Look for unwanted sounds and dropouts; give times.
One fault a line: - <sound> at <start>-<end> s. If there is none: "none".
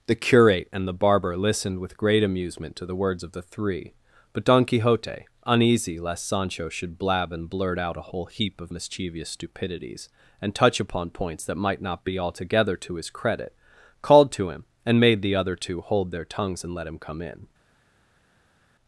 none